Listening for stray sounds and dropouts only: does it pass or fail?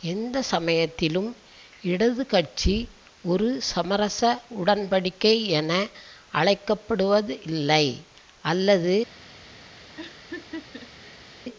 fail